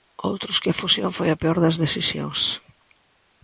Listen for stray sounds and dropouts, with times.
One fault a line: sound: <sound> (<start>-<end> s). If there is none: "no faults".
no faults